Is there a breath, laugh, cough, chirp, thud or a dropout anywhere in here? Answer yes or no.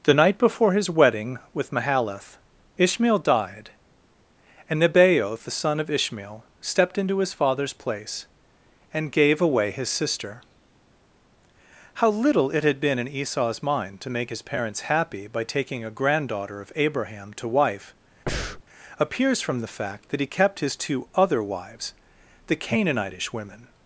yes